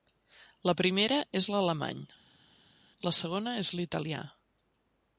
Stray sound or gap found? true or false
false